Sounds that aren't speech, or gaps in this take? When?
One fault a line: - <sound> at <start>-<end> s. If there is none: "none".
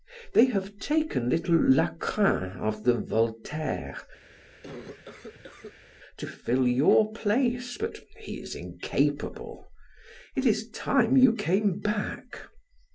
- cough at 4.3-5.9 s